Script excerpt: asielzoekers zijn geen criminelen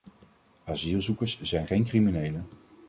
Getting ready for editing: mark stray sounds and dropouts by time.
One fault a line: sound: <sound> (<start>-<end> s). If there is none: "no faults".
no faults